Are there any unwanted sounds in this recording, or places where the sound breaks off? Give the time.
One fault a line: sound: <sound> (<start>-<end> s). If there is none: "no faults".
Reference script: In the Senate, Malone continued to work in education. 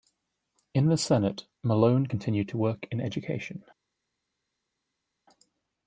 no faults